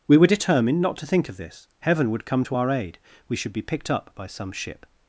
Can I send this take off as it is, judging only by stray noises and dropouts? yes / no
yes